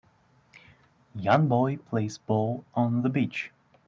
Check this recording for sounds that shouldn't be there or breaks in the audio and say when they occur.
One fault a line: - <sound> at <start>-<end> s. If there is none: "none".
none